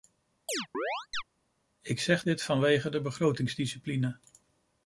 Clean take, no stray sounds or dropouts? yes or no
no